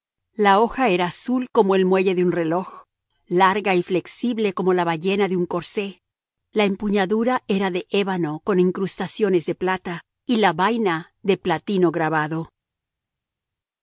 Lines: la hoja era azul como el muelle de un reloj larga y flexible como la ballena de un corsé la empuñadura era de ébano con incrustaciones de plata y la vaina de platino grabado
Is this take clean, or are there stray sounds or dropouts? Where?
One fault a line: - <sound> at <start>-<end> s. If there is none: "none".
none